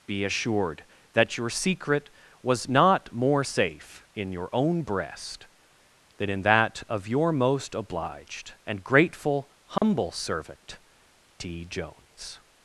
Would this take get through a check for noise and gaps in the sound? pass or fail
fail